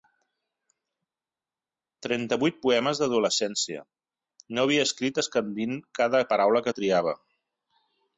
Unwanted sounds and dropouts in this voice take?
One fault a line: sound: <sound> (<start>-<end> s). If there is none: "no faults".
no faults